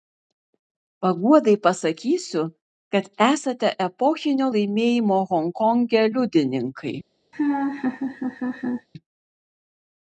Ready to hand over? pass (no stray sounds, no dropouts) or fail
fail